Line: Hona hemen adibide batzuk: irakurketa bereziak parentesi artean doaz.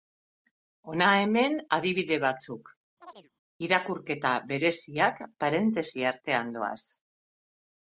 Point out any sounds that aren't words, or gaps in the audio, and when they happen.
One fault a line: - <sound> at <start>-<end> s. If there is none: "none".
- chirp at 3.0-3.3 s